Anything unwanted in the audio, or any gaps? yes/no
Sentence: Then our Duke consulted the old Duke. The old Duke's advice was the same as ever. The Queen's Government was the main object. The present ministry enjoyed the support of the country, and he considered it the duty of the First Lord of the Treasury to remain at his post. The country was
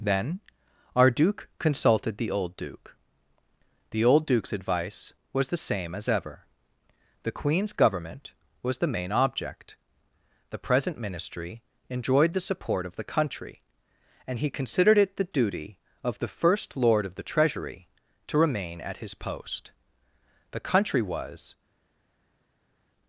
no